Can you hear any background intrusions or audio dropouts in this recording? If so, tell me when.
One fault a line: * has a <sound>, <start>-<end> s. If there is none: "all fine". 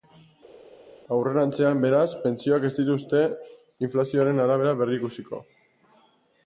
all fine